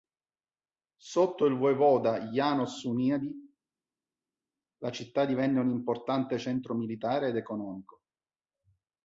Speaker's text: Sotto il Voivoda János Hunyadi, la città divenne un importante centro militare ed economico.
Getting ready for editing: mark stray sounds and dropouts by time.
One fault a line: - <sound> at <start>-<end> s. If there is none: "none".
none